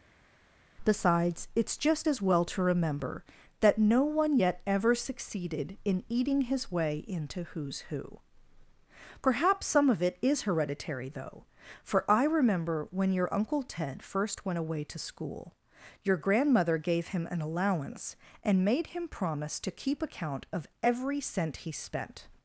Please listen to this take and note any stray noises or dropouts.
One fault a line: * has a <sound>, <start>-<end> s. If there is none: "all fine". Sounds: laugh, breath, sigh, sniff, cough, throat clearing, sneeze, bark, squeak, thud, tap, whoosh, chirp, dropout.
all fine